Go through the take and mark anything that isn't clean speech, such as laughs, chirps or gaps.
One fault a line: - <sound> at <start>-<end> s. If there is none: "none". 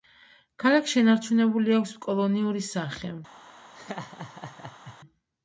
- laugh at 3.7-5.0 s